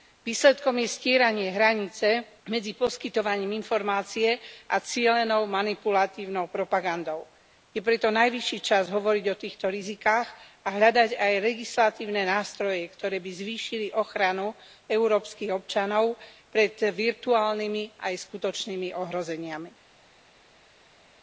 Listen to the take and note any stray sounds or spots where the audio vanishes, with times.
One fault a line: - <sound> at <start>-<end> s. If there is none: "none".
none